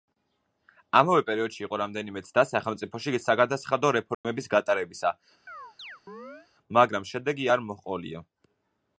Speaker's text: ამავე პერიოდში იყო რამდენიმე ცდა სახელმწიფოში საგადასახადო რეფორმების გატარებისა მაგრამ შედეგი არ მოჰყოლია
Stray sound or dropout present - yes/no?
yes